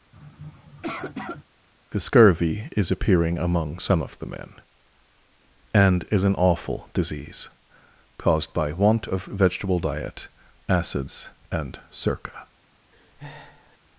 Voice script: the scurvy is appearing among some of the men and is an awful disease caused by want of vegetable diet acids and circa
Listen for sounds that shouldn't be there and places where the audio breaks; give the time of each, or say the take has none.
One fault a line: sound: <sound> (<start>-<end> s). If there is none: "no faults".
sound: sniff (0.1-1.4 s)
sound: breath (12.9-13.8 s)